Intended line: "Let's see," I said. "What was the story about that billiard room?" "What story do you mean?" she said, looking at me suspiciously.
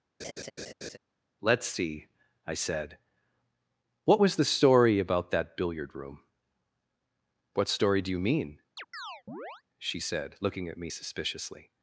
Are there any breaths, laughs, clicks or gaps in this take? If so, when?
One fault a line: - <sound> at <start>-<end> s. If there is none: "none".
- laugh at 0.2-1.0 s
- chirp at 8.8-9.6 s